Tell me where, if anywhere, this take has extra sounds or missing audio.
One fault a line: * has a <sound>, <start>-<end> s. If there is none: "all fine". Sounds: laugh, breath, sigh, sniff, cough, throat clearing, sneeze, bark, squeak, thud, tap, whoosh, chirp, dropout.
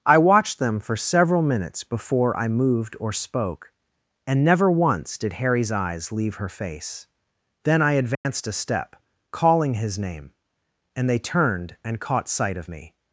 * has a dropout, 8.1-8.2 s